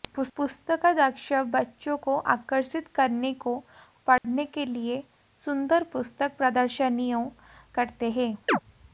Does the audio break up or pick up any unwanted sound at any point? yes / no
yes